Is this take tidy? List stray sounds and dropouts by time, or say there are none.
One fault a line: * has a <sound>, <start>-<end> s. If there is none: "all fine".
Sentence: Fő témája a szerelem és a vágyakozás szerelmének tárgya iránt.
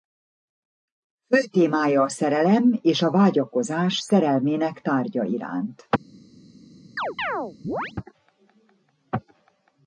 * has a chirp, 7.0-7.9 s